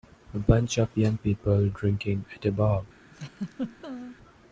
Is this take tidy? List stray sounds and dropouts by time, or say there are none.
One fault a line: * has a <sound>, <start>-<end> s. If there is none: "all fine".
* has a laugh, 3.1-4.2 s